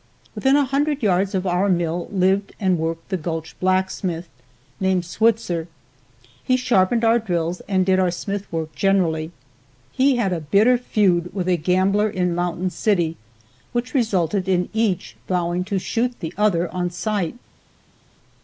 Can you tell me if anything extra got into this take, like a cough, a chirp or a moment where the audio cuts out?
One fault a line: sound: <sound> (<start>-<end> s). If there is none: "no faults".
no faults